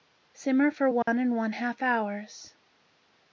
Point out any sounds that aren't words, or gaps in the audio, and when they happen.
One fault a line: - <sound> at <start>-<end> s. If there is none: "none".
- dropout at 1.0-1.1 s